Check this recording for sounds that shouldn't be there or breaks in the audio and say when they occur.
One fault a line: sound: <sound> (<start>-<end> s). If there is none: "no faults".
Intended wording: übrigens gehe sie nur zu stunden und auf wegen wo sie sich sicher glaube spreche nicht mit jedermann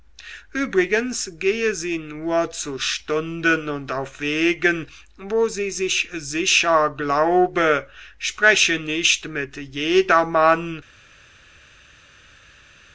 no faults